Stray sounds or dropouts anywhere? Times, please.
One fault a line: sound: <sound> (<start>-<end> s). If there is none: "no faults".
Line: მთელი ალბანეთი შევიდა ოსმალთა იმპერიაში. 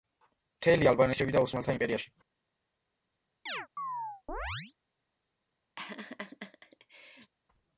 sound: chirp (3.5-4.7 s)
sound: laugh (5.8-7.3 s)